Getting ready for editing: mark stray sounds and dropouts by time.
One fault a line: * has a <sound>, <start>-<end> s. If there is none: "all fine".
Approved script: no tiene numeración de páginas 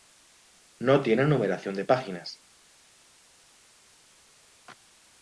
all fine